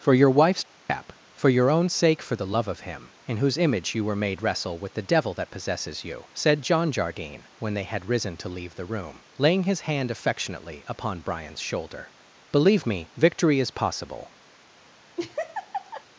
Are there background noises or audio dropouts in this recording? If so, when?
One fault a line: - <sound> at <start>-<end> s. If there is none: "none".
- laugh at 15.2-16.0 s